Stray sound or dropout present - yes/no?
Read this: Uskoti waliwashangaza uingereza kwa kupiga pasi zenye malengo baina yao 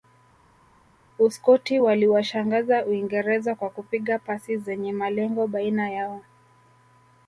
no